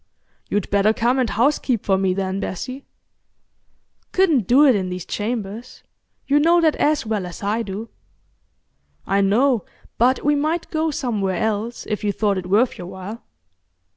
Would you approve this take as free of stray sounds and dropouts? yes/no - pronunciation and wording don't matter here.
yes